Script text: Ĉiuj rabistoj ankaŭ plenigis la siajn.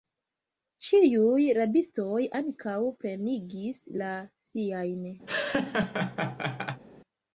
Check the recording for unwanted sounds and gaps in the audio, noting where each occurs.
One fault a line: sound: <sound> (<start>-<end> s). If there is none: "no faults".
sound: laugh (5.3-6.8 s)